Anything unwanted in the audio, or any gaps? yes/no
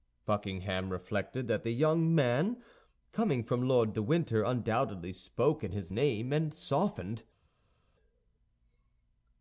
no